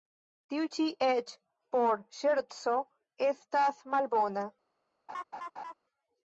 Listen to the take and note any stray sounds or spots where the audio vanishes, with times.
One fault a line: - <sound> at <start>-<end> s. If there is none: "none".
- laugh at 5.1-5.7 s